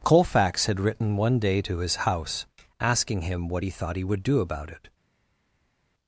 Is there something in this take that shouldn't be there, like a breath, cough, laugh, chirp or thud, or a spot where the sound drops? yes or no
no